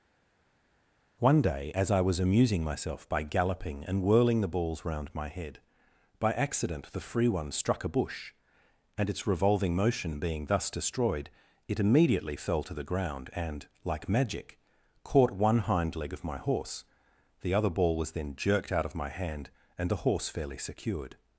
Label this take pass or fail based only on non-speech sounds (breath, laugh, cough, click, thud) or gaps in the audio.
pass